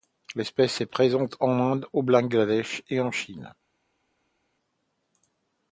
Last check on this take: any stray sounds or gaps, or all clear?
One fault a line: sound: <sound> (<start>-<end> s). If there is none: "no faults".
no faults